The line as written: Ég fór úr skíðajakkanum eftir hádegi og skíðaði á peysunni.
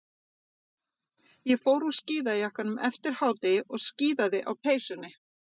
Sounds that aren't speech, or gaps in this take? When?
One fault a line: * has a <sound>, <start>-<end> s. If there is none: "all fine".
all fine